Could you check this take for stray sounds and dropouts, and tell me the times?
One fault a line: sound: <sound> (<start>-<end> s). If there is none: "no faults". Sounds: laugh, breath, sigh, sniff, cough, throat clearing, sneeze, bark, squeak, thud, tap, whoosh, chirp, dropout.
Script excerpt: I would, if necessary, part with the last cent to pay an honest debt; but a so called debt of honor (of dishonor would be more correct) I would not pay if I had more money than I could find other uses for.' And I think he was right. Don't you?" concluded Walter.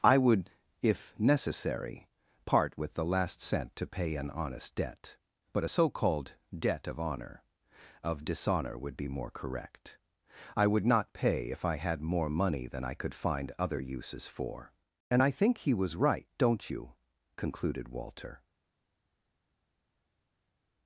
no faults